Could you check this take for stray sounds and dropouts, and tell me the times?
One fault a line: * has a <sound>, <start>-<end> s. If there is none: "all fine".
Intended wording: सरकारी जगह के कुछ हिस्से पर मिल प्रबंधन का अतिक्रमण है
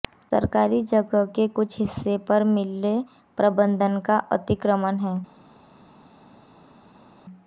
all fine